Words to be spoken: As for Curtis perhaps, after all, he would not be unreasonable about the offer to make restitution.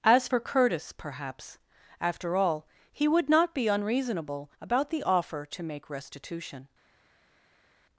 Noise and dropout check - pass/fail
pass